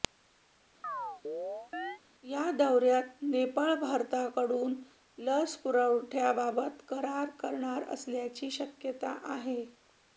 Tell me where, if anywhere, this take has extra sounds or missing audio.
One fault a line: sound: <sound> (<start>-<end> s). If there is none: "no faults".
sound: chirp (0.8-2.0 s)